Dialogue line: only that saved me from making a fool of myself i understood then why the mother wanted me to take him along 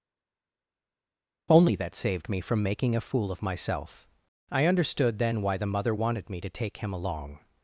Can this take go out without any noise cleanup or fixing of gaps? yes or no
yes